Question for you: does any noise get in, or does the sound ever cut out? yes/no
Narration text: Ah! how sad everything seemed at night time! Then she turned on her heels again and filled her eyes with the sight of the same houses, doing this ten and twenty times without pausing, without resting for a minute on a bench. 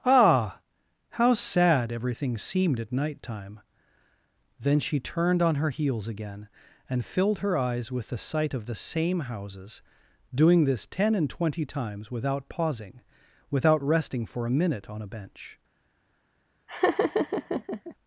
yes